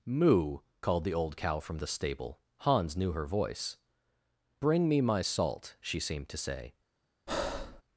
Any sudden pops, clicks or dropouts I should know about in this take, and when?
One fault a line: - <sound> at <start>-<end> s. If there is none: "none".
- breath at 7.3-7.8 s